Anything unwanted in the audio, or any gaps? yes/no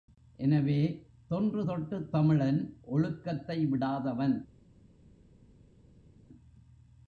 no